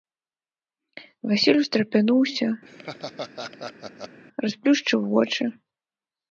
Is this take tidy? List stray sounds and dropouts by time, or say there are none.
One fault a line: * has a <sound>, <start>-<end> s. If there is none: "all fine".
* has a laugh, 2.7-4.2 s